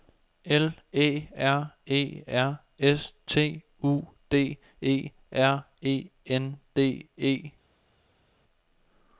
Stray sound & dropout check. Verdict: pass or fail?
pass